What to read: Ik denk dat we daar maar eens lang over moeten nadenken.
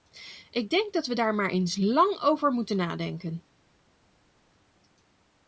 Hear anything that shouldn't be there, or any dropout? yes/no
no